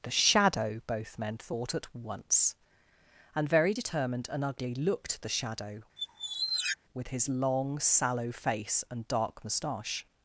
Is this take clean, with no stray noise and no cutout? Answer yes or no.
no